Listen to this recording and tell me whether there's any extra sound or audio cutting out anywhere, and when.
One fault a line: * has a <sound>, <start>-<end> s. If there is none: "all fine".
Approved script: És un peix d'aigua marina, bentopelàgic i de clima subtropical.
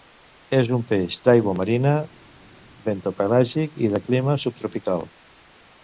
all fine